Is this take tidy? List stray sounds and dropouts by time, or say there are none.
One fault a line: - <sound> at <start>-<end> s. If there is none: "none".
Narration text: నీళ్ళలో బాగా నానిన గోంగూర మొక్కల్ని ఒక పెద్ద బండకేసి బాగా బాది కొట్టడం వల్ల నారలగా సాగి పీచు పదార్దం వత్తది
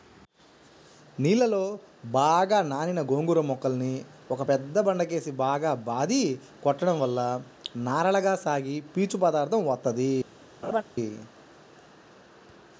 - laugh at 10.6-10.8 s